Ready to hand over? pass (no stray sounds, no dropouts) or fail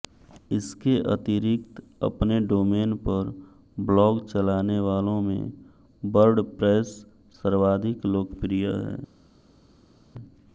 pass